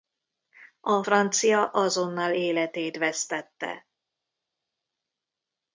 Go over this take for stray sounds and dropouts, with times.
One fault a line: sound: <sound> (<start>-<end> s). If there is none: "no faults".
no faults